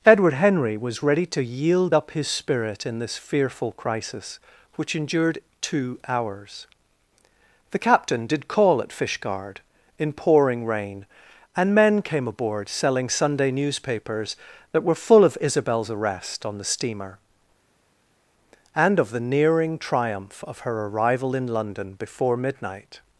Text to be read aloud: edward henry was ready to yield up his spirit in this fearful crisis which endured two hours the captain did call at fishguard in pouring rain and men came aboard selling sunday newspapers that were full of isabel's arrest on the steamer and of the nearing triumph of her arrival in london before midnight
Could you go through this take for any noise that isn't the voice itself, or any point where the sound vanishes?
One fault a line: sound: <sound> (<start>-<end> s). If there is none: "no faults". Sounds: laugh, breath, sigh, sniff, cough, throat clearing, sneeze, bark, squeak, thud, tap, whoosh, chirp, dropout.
no faults